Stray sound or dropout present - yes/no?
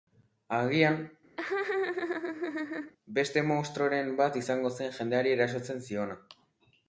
yes